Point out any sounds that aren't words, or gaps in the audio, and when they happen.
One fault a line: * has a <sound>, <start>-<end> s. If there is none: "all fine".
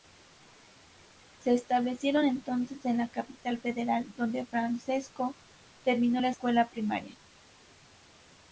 all fine